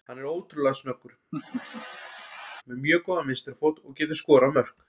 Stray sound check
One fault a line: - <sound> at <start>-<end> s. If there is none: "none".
- laugh at 1.3-2.6 s